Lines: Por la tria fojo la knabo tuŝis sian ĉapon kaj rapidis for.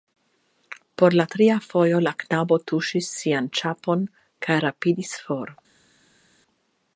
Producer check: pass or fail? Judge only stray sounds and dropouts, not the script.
pass